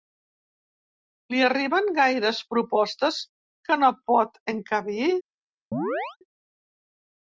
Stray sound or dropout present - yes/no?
yes